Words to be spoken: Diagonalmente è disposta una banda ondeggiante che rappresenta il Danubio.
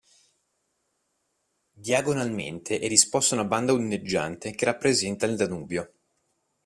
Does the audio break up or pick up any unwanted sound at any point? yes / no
no